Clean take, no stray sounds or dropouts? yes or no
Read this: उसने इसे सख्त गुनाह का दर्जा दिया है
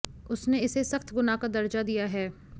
yes